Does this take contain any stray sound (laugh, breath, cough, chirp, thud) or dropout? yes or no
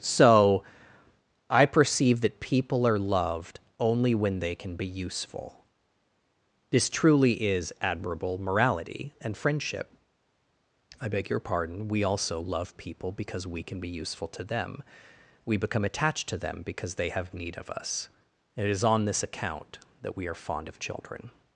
no